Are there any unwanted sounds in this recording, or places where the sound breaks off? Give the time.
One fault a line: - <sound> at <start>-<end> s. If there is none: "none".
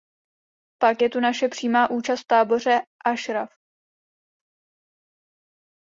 none